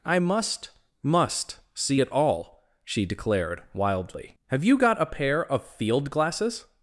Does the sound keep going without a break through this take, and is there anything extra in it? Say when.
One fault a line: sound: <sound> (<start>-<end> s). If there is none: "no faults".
no faults